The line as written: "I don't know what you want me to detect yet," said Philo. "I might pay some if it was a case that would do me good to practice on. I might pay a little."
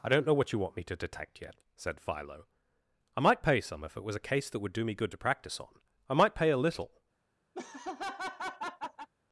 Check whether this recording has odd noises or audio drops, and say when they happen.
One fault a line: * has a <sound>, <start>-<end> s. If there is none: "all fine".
* has a laugh, 7.5-9.1 s